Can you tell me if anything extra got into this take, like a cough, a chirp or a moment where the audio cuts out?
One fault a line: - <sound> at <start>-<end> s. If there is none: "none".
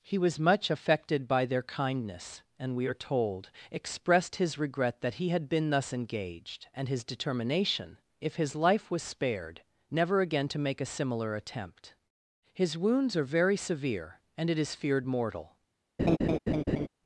- laugh at 16.0-16.9 s